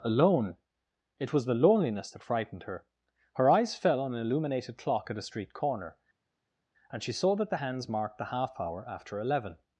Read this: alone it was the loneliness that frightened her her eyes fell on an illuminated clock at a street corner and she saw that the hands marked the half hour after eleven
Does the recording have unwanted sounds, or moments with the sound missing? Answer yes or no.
no